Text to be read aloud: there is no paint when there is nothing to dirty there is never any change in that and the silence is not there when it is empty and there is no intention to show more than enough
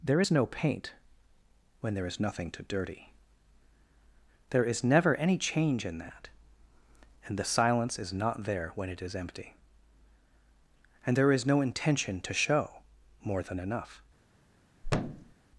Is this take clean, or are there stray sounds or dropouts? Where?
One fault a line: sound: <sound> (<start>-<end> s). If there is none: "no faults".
sound: thud (14.8-15.3 s)